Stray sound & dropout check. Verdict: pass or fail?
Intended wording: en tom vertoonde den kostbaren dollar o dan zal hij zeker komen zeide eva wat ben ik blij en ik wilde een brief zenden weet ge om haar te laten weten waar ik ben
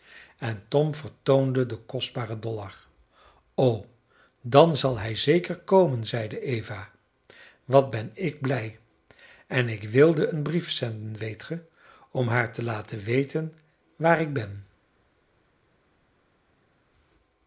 pass